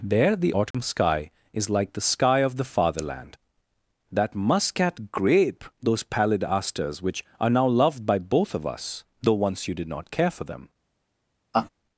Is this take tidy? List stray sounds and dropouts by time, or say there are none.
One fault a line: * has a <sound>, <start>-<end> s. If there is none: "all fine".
* has a dropout, 0.7-0.7 s
* has a laugh, 11.5-11.7 s